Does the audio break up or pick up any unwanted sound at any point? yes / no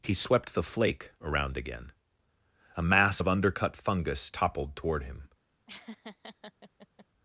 yes